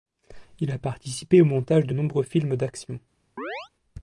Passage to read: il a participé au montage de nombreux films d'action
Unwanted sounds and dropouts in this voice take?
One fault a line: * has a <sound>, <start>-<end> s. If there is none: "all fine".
* has a chirp, 3.4-3.7 s